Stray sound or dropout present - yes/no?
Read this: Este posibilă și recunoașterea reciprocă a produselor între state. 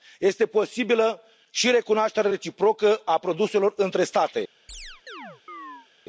yes